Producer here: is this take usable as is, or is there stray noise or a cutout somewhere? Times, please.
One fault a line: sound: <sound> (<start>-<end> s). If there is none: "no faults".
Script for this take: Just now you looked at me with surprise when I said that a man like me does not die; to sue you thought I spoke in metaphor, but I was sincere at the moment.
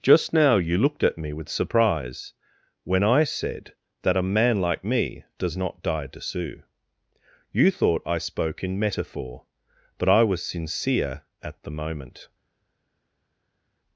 no faults